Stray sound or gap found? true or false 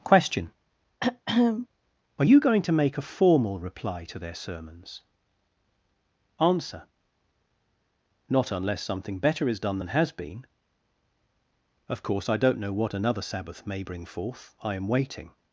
true